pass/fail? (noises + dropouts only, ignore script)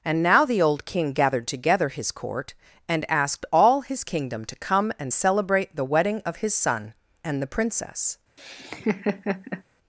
fail